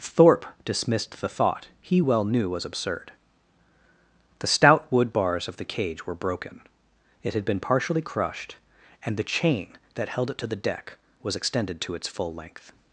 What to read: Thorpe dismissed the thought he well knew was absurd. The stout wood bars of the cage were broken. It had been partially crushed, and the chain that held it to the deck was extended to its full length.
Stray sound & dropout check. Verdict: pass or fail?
pass